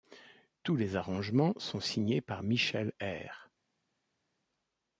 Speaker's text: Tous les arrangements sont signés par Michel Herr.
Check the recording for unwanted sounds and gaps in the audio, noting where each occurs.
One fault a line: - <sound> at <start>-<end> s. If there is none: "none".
none